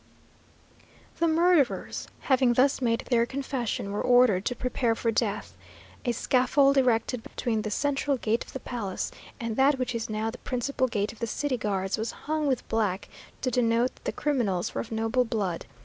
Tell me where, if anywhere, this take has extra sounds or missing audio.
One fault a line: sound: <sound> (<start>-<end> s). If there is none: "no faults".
sound: dropout (7.3-7.3 s)